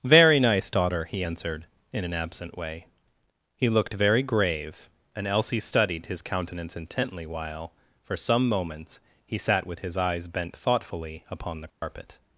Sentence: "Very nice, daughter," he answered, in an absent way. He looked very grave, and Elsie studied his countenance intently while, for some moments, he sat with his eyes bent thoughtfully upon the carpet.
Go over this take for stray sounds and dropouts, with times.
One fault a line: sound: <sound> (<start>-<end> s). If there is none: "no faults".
sound: dropout (11.7-11.8 s)